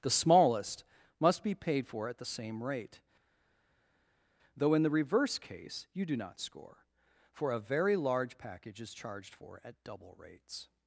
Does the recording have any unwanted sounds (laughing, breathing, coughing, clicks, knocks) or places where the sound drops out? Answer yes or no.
no